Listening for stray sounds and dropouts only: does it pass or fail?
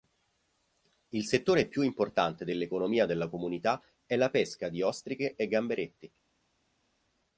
pass